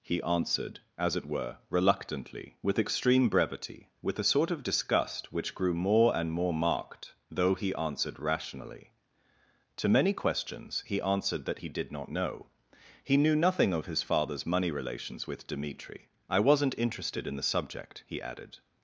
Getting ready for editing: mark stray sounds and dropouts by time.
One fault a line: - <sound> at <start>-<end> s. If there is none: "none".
none